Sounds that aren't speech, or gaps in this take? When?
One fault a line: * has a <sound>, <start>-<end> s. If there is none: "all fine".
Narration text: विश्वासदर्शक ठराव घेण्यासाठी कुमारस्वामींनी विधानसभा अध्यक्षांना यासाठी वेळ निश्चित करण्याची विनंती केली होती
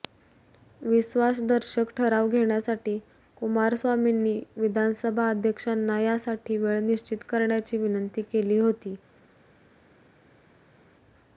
all fine